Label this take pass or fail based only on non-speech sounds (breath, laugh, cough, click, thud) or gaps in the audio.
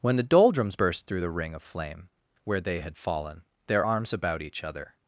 pass